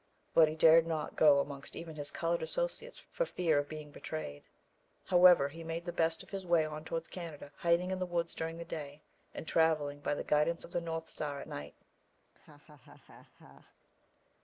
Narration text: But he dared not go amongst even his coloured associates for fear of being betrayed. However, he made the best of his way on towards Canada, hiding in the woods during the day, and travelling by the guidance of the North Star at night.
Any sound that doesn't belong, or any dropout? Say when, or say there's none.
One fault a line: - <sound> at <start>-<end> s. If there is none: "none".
- laugh at 12.2-13.7 s